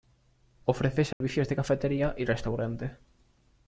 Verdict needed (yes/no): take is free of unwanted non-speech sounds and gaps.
no